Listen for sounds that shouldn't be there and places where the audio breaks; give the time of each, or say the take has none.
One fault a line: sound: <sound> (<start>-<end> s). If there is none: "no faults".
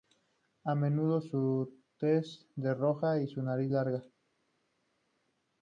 no faults